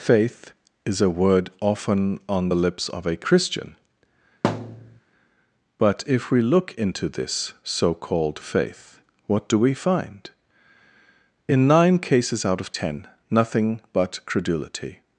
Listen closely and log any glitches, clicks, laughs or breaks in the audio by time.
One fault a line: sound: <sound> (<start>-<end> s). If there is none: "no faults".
sound: thud (4.4-5.0 s)